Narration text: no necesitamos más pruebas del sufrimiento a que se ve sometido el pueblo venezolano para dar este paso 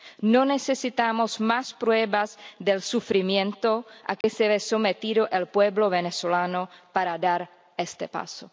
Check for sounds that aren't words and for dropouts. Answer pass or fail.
fail